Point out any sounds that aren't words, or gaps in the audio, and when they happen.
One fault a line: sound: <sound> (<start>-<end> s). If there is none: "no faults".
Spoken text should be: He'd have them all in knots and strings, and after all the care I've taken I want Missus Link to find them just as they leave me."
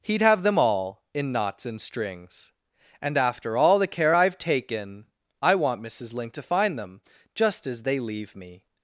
no faults